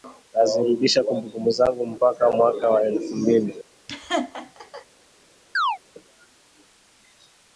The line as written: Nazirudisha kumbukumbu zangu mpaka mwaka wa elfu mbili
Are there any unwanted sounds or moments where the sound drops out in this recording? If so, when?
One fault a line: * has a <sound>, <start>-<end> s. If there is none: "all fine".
* has a laugh, 3.9-4.9 s
* has a chirp, 5.5-5.8 s